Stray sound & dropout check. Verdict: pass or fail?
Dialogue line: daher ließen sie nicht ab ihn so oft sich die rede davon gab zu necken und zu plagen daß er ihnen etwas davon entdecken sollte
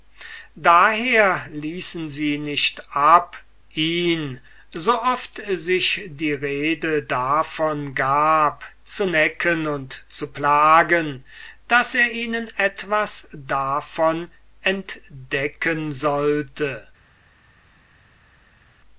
pass